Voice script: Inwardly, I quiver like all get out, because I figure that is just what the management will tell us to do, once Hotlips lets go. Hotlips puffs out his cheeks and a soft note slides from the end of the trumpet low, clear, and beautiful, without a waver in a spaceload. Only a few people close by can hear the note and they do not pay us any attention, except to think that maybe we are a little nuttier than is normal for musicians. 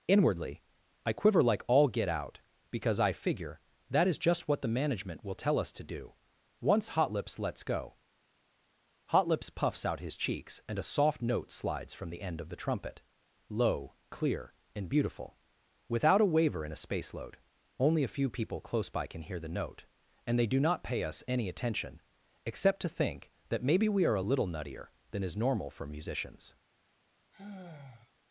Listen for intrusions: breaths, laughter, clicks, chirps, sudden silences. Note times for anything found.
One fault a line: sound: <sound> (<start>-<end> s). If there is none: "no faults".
sound: sigh (27.3-28.1 s)